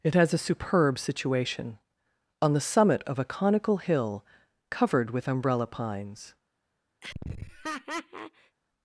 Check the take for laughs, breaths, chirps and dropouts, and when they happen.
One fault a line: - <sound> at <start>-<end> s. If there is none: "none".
- laugh at 7.0-8.6 s